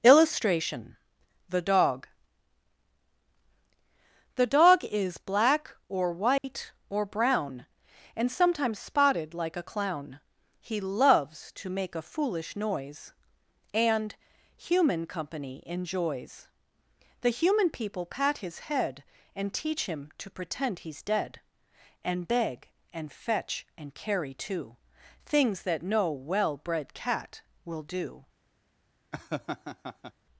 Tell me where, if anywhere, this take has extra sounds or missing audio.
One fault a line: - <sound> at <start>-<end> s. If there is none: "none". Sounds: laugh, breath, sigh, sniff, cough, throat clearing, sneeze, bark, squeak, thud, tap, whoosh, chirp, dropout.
- dropout at 6.4-6.4 s
- laugh at 29.1-30.1 s